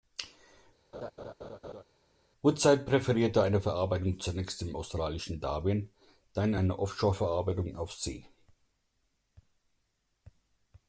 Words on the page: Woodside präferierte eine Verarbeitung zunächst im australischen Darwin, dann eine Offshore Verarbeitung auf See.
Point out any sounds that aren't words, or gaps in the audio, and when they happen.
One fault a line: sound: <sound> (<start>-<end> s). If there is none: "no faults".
sound: laugh (0.9-1.8 s)